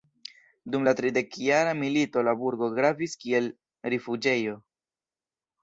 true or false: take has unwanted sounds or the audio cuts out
false